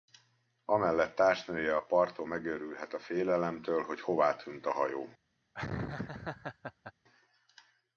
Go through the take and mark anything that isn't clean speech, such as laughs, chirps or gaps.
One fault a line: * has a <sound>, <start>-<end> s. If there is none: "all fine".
* has a laugh, 5.5-6.9 s